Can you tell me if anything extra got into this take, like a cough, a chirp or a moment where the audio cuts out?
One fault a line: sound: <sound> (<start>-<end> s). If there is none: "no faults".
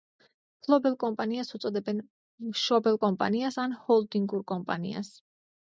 no faults